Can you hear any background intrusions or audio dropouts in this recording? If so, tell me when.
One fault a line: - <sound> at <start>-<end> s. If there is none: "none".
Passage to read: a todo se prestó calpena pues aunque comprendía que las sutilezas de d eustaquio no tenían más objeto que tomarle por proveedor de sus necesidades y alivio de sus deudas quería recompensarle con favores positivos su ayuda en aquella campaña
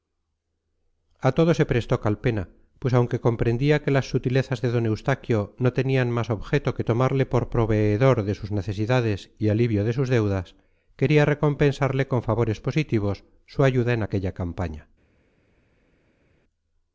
none